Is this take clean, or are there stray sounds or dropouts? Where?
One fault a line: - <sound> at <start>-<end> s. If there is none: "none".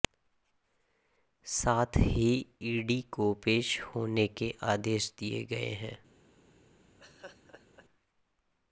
- laugh at 7.0-7.9 s